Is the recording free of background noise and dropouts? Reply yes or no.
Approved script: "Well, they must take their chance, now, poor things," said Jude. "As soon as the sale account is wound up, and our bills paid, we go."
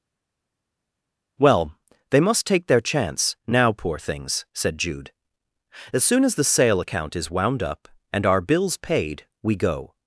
yes